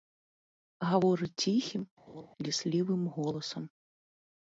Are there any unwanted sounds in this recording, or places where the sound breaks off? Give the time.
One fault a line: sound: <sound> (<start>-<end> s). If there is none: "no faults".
sound: laugh (2.1-2.3 s)